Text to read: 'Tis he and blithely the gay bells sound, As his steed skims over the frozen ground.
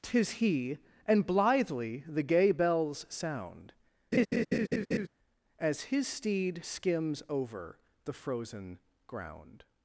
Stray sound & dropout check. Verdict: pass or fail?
fail